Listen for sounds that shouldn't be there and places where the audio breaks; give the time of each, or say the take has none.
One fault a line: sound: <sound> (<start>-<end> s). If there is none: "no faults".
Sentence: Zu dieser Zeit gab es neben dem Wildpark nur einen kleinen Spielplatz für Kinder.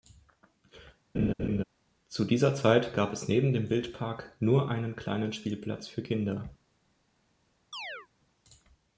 sound: laugh (1.1-1.6 s)
sound: chirp (7.7-8.1 s)